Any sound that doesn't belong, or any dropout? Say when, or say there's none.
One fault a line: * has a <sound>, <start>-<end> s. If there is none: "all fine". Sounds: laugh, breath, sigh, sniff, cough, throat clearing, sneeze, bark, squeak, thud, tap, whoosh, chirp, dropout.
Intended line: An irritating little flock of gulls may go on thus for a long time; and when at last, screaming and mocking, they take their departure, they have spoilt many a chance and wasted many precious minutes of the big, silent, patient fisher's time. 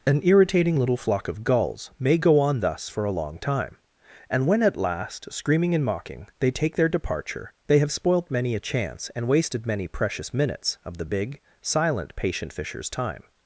all fine